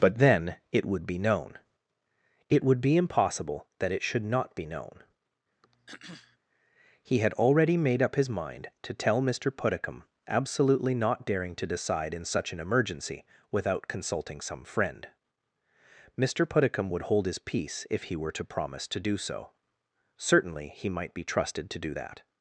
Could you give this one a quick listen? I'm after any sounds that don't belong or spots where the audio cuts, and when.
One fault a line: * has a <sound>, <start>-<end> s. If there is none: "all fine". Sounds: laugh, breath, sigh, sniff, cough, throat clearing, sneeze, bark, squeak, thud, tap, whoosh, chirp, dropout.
* has a throat clearing, 5.6-6.4 s